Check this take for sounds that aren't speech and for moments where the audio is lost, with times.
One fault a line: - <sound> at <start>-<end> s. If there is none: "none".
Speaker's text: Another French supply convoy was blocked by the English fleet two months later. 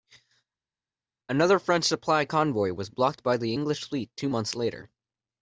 none